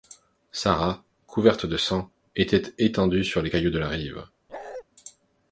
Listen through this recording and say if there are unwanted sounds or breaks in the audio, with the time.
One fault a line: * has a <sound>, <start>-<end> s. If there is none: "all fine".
* has a bark, 4.5-4.8 s